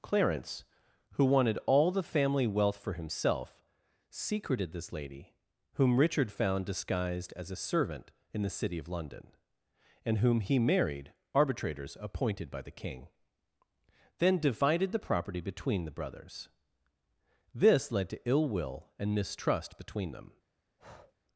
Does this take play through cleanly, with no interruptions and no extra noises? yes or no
no